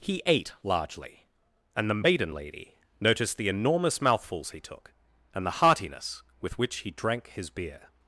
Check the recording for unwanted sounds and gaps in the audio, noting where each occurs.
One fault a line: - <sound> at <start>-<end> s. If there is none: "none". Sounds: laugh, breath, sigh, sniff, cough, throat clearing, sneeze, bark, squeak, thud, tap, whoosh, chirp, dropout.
none